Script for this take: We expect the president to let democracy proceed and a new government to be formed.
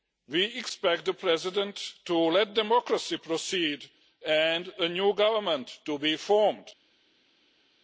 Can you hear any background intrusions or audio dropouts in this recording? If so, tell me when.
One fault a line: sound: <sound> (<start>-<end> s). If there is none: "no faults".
no faults